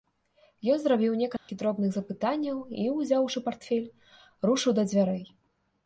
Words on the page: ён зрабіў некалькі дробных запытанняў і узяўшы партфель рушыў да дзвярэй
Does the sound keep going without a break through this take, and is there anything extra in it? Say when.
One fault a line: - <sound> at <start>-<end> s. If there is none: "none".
- dropout at 1.4-1.5 s